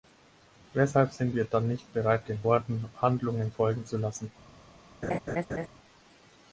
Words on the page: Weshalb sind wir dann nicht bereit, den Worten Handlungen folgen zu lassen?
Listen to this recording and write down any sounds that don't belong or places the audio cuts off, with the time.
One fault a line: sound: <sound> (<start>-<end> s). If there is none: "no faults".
sound: laugh (5.0-5.7 s)